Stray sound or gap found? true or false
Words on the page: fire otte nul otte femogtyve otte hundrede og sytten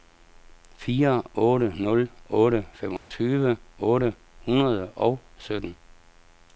true